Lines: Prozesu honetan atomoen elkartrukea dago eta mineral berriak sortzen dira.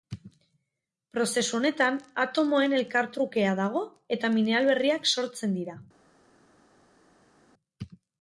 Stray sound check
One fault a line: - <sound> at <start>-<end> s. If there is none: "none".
none